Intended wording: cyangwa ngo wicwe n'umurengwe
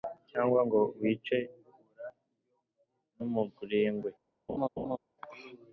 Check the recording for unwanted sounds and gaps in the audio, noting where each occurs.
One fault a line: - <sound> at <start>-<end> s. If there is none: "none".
- laugh at 4.5-5.0 s